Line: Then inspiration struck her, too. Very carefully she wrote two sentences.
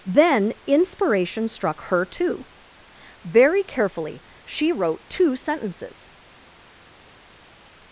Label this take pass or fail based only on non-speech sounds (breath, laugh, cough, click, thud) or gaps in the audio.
pass